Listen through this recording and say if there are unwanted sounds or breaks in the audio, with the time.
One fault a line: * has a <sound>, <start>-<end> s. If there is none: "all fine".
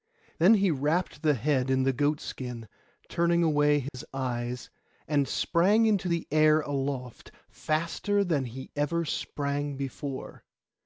* has a dropout, 3.9-3.9 s